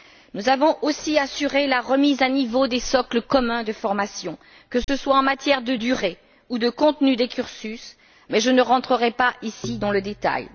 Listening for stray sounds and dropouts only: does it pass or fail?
fail